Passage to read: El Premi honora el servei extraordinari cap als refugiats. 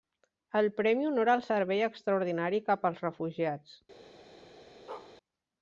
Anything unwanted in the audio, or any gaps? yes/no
yes